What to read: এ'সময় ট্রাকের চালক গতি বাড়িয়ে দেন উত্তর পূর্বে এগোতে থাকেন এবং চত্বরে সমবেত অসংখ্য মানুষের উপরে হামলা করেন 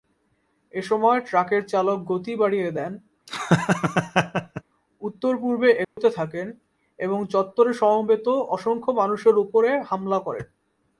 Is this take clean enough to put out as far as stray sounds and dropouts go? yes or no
no